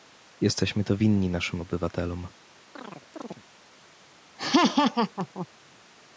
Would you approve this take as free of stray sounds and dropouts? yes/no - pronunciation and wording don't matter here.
no